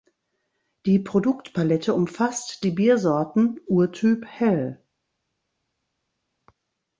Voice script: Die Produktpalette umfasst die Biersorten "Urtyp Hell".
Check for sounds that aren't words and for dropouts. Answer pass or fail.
pass